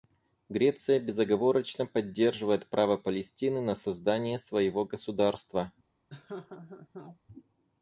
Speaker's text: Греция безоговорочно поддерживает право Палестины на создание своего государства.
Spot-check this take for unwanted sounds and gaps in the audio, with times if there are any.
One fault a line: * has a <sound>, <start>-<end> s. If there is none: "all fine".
* has a laugh, 6.1-7.2 s